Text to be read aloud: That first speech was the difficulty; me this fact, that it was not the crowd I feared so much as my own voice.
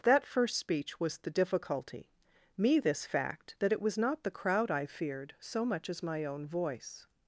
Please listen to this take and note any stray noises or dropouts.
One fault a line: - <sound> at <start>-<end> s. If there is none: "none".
none